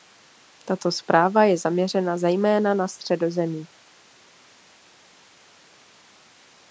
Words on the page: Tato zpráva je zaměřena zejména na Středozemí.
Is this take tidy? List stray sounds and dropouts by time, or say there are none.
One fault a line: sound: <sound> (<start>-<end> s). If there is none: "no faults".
no faults